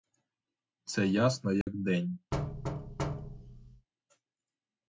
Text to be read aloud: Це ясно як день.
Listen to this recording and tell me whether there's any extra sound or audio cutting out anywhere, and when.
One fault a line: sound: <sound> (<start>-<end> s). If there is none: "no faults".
sound: dropout (1.6-1.7 s)
sound: thud (2.3-3.9 s)